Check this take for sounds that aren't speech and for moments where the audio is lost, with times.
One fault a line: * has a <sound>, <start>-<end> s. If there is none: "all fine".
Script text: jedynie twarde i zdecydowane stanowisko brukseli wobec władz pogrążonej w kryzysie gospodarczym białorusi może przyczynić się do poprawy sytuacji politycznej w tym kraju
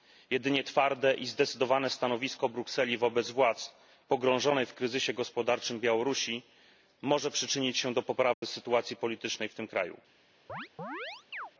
* has a dropout, 8.3-8.4 s
* has a chirp, 10.5-11.5 s